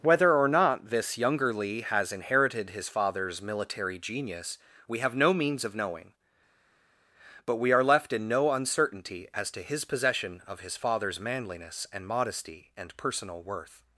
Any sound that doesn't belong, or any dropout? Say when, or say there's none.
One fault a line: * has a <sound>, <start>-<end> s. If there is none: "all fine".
all fine